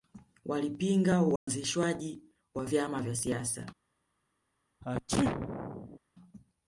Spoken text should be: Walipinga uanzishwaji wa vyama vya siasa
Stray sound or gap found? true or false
true